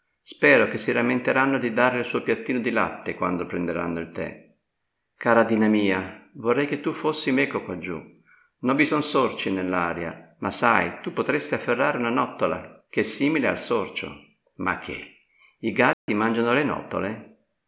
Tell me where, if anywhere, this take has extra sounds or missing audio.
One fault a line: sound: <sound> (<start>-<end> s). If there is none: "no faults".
sound: dropout (15.9-16.1 s)